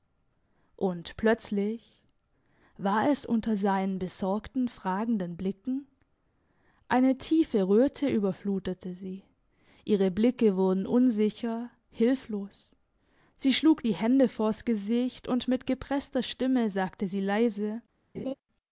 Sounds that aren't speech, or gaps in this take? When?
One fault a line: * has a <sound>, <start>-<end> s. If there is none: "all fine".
* has a laugh, 18.1-18.3 s